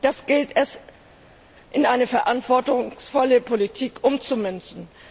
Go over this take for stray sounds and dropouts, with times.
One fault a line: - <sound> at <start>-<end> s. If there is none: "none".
none